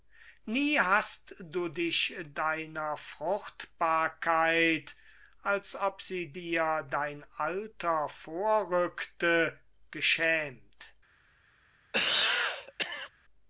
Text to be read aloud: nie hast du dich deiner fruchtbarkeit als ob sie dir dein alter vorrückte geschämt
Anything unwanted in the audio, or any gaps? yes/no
yes